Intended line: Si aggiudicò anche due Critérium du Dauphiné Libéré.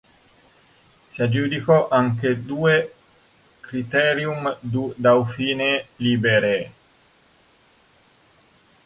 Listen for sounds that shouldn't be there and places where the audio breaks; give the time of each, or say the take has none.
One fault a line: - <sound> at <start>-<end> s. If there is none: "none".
none